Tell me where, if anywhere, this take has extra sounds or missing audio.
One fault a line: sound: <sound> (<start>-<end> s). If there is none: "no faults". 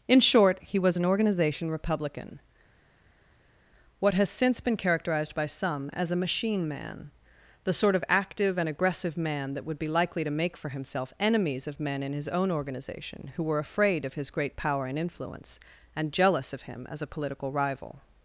no faults